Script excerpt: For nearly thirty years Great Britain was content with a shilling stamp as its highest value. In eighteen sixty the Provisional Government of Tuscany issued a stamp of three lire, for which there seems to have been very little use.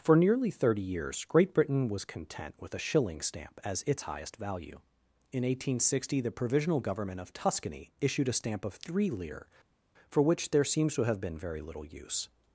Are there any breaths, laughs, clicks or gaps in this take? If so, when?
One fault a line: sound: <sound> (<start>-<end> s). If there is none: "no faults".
no faults